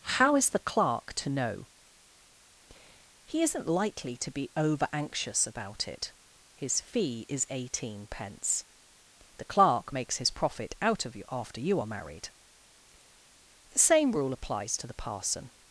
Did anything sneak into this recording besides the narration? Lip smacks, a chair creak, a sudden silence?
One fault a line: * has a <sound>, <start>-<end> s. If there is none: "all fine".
all fine